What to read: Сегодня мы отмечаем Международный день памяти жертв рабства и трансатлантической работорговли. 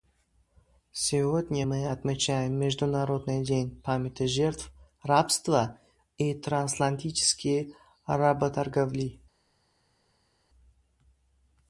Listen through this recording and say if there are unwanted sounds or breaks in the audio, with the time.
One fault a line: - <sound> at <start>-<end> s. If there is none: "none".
none